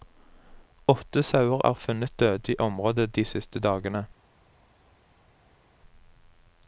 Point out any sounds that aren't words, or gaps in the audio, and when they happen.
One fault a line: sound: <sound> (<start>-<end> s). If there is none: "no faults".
no faults